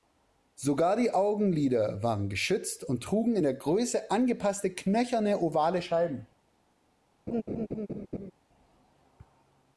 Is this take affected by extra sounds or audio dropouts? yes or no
yes